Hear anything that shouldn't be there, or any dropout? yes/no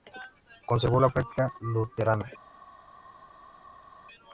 no